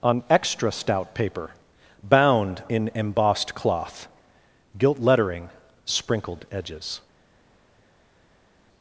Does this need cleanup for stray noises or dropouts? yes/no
no